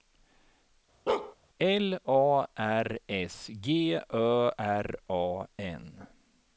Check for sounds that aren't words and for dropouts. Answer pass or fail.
fail